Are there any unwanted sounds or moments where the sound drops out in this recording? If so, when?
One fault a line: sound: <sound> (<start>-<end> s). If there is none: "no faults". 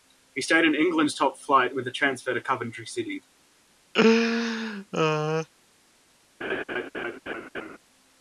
sound: laugh (3.9-5.5 s)
sound: laugh (6.4-7.8 s)